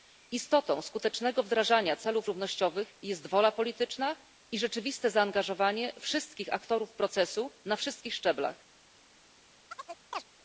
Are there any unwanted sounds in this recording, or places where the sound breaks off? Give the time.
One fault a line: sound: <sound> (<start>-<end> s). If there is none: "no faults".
sound: chirp (9.7-10.2 s)